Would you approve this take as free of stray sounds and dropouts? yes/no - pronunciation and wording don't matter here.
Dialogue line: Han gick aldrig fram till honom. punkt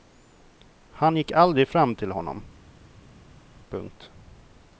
yes